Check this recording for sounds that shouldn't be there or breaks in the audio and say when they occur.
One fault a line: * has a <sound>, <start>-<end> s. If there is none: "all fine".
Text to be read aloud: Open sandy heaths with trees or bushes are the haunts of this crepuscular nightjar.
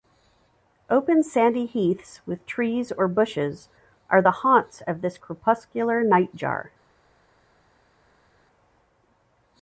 all fine